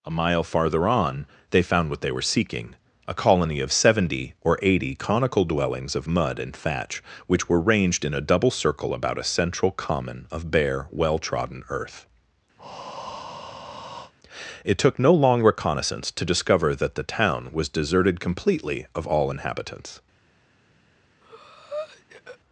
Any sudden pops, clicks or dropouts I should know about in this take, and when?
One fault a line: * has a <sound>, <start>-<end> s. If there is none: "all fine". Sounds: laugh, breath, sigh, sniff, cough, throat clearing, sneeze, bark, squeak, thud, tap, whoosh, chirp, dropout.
* has a breath, 12.6-14.1 s
* has a breath, 21.2-22.4 s